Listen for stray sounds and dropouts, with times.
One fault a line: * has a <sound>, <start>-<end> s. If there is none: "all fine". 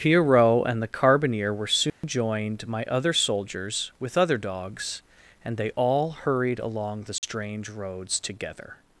* has a dropout, 1.9-2.0 s
* has a dropout, 7.2-7.2 s